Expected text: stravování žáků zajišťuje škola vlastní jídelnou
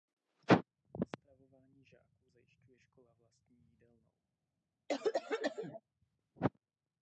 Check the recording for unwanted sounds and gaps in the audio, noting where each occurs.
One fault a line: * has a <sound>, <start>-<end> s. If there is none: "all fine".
* has a cough, 4.9-5.8 s